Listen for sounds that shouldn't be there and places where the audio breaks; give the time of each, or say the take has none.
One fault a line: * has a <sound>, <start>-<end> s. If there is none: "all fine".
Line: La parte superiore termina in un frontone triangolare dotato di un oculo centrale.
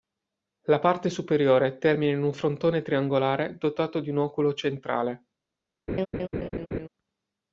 * has a laugh, 5.9-6.9 s